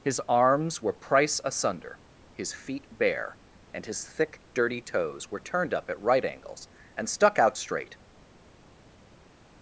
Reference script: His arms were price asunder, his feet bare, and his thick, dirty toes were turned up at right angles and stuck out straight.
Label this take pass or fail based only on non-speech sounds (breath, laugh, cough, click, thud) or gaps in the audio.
pass